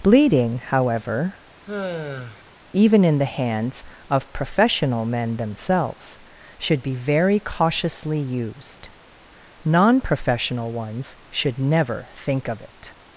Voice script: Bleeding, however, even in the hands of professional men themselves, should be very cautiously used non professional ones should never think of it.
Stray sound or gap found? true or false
true